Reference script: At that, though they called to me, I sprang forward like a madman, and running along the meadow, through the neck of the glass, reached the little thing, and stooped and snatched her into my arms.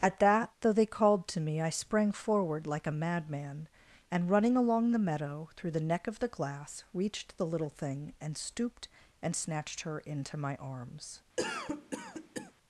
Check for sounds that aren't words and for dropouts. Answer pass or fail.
fail